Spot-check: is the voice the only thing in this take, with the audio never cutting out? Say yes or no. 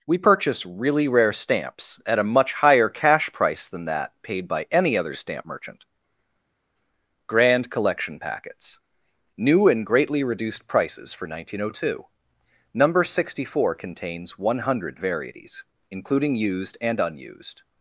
yes